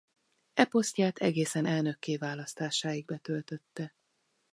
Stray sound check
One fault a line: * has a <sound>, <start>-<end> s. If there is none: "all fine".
all fine